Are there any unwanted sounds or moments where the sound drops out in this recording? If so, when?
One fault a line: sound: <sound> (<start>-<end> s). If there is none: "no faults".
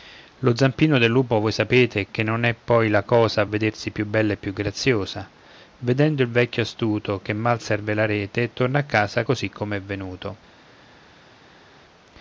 no faults